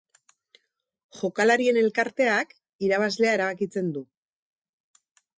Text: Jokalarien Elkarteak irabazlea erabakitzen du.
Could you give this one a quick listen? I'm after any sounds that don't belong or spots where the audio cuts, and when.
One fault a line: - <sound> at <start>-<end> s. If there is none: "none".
none